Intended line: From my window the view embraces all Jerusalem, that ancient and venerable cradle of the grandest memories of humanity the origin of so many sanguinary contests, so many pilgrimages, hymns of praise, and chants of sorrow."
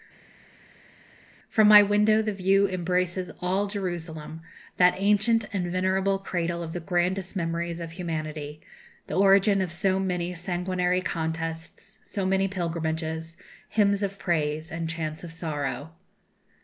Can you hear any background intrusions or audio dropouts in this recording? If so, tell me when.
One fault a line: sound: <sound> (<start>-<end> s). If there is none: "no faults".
no faults